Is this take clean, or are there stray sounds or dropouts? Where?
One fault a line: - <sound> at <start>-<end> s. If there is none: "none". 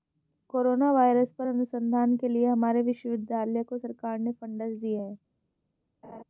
- laugh at 6.0-6.2 s